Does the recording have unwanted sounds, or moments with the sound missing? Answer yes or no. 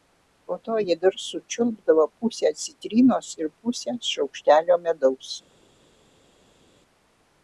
no